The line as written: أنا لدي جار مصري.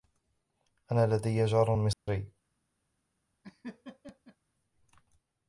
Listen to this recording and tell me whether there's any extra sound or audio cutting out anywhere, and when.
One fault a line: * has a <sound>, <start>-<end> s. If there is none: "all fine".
* has a dropout, 1.9-2.1 s
* has a laugh, 3.4-4.4 s